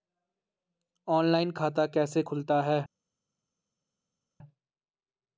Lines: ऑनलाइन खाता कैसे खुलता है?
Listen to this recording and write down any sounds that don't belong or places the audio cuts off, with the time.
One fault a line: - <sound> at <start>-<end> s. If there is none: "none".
none